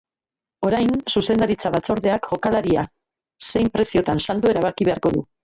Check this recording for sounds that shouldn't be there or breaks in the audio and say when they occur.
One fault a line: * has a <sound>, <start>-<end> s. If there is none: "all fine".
all fine